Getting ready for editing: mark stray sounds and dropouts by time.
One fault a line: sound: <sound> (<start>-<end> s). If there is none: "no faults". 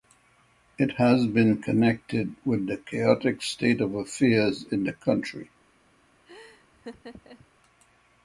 sound: laugh (6.3-7.5 s)